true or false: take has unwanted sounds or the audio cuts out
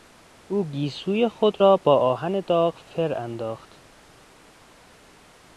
false